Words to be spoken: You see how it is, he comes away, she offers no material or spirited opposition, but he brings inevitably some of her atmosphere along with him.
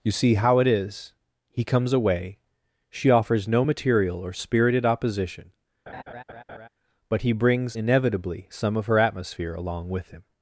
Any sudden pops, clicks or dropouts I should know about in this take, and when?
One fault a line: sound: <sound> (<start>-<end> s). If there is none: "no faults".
sound: laugh (5.9-6.7 s)